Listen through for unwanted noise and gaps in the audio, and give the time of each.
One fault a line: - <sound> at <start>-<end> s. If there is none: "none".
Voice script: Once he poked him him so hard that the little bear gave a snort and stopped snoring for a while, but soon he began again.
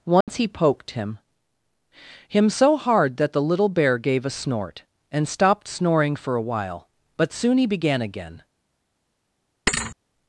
- dropout at 0.2-0.3 s
- thud at 9.7-10.0 s